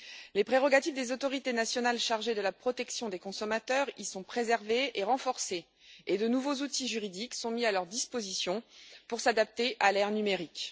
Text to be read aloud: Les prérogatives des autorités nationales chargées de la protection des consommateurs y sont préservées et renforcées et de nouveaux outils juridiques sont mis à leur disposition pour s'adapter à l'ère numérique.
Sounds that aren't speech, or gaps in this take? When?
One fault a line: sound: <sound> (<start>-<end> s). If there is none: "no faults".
no faults